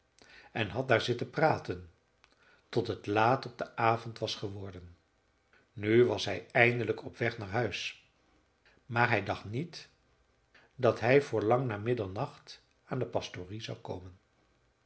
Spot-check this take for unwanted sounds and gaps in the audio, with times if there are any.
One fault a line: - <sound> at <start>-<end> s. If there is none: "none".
none